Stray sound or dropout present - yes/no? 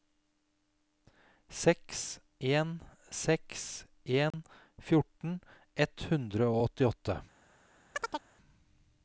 yes